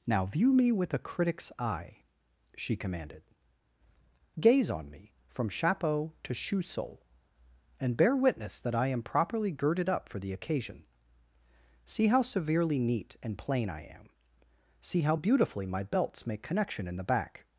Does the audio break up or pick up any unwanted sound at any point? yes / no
no